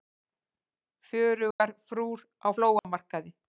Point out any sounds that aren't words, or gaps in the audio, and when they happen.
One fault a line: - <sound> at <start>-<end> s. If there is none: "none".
- dropout at 1.5-1.6 s
- dropout at 2.8-2.8 s